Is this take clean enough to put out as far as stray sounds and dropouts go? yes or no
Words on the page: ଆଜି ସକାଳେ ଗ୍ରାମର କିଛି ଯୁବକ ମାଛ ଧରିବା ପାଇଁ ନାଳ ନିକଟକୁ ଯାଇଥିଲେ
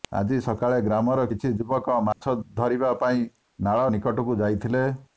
no